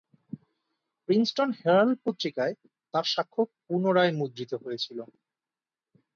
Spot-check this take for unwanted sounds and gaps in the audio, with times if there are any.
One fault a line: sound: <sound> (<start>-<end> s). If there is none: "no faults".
no faults